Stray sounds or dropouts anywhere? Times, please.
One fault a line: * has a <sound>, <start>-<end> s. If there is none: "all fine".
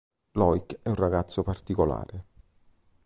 all fine